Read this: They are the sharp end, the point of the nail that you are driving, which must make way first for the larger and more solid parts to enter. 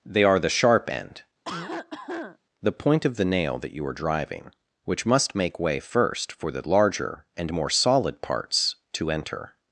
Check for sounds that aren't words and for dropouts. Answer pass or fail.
fail